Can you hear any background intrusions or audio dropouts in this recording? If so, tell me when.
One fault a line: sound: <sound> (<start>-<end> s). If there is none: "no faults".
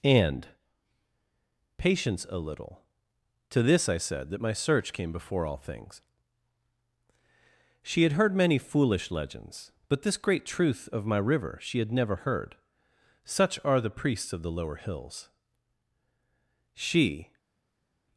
no faults